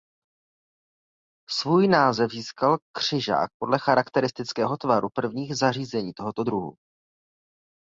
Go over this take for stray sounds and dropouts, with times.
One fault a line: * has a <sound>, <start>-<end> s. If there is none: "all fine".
all fine